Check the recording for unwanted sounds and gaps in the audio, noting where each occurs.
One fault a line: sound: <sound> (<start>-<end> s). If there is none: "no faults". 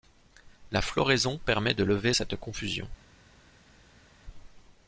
no faults